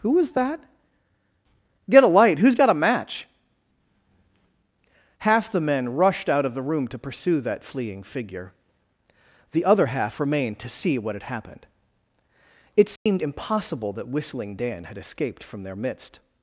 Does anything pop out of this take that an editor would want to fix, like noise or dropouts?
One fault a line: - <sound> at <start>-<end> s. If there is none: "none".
- dropout at 13.0-13.1 s